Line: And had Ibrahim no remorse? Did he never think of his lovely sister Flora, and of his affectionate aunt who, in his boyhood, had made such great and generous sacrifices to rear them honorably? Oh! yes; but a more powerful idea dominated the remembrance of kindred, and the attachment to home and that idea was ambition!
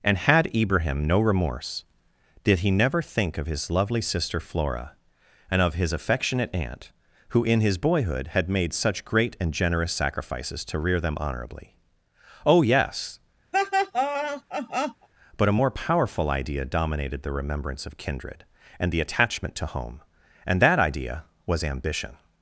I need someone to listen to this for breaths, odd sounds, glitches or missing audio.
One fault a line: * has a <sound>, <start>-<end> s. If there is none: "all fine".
* has a laugh, 13.5-15.1 s